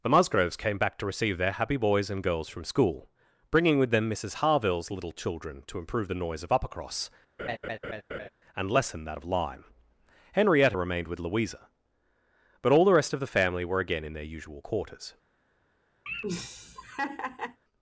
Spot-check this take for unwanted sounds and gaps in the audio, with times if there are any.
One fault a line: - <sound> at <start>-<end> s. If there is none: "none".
- laugh at 7.4-8.3 s
- laugh at 16.1-17.6 s